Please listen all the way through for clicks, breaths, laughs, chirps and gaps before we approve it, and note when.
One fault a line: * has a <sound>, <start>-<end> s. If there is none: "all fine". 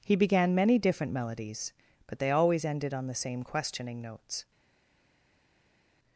all fine